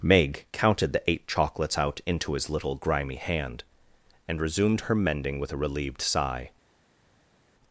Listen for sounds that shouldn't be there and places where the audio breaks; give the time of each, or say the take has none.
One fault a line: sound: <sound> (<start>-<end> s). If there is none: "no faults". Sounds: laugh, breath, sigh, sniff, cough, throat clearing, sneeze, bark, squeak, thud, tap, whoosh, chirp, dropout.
no faults